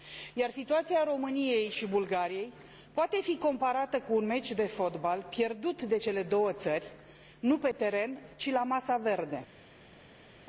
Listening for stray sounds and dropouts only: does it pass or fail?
pass